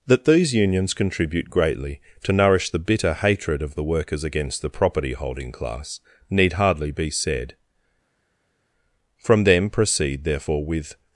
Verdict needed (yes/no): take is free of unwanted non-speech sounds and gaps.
yes